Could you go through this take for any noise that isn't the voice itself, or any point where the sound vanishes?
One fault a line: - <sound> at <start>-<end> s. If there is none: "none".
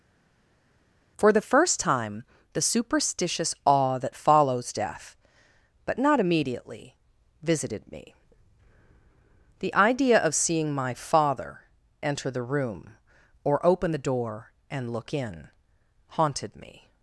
none